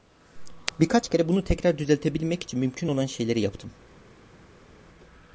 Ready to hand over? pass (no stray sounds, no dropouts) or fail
pass